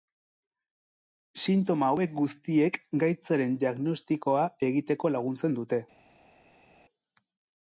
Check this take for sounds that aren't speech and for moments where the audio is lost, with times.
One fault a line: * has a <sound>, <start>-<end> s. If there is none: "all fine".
all fine